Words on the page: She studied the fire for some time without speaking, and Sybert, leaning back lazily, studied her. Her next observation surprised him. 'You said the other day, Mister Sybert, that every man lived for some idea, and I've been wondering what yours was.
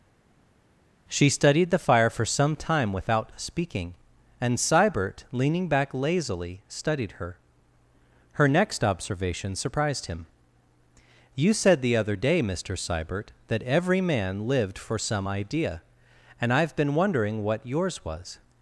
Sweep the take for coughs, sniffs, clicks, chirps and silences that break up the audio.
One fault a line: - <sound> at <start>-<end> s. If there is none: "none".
none